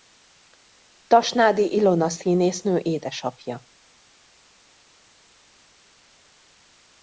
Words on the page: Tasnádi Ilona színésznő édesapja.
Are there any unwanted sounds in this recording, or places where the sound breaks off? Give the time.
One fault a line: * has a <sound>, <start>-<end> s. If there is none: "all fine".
all fine